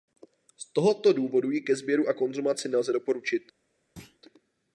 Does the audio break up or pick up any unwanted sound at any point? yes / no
yes